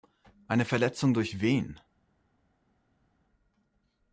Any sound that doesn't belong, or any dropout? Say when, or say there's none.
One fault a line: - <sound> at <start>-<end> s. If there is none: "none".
none